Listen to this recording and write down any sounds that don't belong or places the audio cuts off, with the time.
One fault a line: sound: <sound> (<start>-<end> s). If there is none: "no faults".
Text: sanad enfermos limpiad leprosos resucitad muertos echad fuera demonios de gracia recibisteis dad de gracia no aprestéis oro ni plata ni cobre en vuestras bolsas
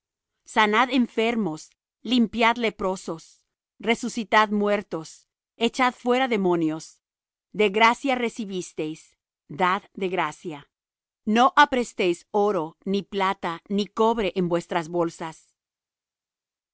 no faults